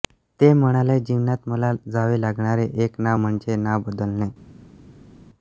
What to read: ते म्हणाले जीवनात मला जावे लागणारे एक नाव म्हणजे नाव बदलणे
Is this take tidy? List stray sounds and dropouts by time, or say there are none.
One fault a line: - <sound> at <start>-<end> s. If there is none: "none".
none